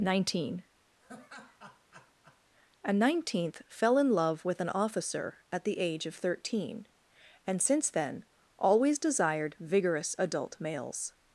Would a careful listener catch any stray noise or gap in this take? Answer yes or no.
yes